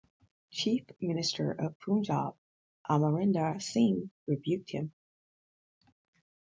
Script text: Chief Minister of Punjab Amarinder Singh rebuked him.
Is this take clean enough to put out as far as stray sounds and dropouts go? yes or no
yes